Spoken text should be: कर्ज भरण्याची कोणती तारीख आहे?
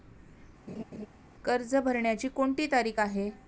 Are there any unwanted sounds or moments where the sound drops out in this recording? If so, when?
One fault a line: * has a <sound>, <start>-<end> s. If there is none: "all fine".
* has a laugh, 0.7-1.1 s